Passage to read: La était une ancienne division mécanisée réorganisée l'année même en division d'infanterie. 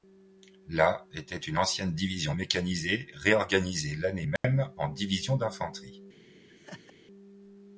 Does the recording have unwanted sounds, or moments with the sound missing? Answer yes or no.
yes